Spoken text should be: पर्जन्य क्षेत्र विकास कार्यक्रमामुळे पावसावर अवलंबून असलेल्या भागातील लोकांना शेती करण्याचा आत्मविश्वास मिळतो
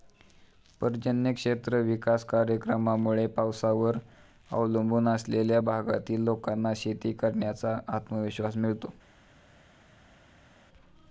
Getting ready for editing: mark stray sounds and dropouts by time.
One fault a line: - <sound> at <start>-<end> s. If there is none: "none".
none